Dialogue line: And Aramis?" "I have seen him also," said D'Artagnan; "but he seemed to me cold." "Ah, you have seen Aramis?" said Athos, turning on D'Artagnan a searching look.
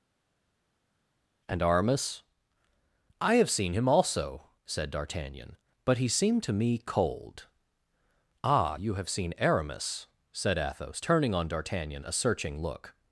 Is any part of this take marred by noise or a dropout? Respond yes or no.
no